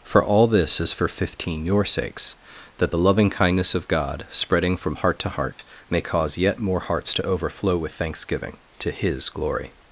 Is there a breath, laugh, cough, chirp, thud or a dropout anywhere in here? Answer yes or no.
yes